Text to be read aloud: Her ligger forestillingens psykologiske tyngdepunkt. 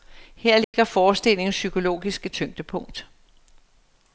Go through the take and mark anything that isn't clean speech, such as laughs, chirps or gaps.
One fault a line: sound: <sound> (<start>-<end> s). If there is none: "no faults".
sound: dropout (0.6-0.7 s)